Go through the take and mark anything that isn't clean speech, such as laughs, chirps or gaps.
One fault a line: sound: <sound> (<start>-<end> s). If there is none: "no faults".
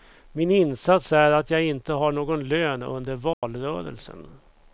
sound: dropout (3.3-3.4 s)